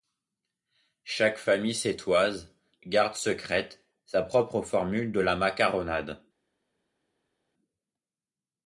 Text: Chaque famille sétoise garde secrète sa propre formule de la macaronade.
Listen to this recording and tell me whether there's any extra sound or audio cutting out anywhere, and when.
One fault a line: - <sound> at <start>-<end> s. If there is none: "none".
none